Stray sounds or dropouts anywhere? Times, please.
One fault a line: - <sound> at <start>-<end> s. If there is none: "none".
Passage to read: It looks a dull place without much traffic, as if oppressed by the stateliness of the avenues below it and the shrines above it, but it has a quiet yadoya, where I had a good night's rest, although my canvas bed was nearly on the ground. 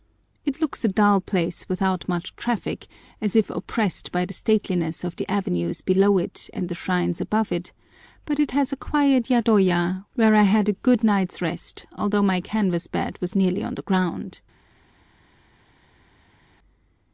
none